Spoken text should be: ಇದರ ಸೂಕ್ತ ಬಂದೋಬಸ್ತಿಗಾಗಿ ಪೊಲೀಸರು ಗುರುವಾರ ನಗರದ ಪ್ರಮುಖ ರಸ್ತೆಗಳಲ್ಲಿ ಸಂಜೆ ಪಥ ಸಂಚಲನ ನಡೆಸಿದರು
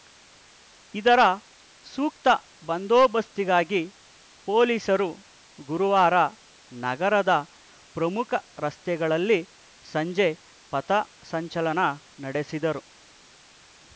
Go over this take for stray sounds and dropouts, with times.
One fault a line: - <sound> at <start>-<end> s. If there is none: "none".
none